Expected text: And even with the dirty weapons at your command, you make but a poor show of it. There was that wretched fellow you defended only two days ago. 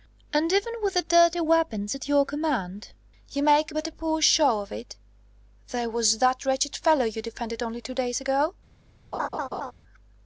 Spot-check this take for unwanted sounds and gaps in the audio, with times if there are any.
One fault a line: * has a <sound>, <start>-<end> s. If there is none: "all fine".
* has a laugh, 9.1-9.7 s